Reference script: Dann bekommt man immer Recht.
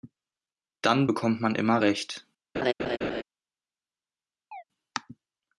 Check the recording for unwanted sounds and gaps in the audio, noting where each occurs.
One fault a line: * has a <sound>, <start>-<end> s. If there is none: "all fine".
* has a laugh, 2.5-3.2 s
* has a chirp, 4.5-4.6 s